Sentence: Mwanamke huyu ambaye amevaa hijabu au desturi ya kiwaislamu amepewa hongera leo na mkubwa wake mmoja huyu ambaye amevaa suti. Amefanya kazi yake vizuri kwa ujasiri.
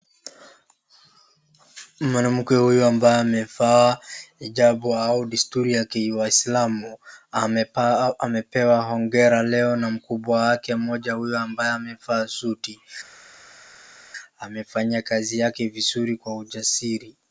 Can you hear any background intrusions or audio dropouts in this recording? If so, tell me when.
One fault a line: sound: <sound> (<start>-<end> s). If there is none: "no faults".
no faults